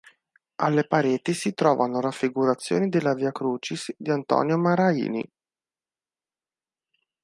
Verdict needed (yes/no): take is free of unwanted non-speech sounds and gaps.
yes